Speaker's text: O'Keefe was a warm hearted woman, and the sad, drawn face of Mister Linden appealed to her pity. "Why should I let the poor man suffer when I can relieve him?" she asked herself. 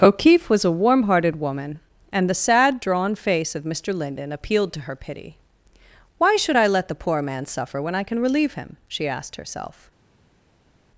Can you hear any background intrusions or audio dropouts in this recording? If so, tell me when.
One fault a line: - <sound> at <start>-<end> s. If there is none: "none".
none